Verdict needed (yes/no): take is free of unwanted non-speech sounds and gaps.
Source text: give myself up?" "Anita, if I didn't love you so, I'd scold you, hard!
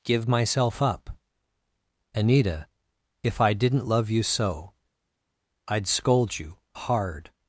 yes